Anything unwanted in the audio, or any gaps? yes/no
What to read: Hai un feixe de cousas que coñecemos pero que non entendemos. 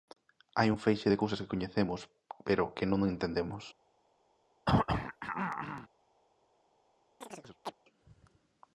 yes